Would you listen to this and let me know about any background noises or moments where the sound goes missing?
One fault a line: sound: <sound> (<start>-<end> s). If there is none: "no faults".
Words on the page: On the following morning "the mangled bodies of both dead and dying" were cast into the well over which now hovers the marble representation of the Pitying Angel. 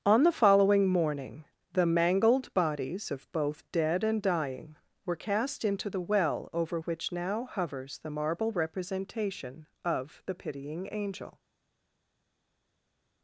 no faults